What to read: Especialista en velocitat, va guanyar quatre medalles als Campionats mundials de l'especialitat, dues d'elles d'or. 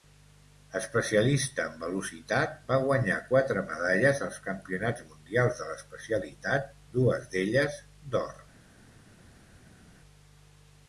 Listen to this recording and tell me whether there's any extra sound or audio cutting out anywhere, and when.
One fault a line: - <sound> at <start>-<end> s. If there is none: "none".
none